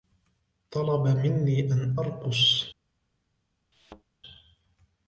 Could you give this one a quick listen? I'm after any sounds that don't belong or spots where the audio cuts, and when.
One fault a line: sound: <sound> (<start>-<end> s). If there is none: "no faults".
sound: thud (3.7-4.0 s)